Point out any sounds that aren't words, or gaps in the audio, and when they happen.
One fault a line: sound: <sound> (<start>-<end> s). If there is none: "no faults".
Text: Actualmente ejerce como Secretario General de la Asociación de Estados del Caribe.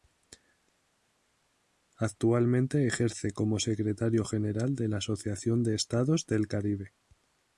no faults